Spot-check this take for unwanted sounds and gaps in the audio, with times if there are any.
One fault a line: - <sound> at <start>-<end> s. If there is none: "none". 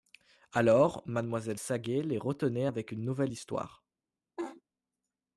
- laugh at 4.4-4.6 s